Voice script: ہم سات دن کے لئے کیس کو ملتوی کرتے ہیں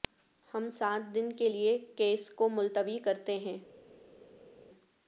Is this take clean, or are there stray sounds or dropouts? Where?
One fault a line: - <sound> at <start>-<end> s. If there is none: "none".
none